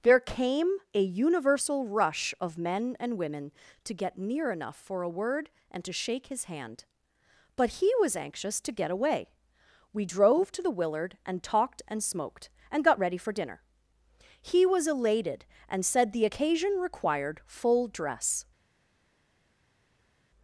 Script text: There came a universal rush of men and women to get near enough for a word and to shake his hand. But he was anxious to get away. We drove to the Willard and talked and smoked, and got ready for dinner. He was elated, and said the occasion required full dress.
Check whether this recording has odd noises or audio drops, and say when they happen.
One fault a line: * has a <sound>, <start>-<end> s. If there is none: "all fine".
all fine